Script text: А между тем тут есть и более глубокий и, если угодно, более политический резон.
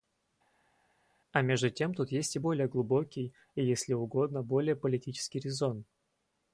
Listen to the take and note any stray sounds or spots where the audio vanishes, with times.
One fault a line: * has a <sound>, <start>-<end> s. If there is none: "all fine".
all fine